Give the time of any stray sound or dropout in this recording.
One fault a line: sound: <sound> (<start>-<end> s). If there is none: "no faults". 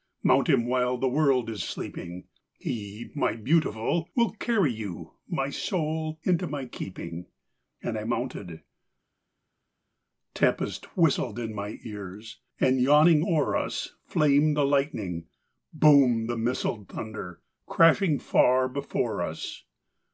no faults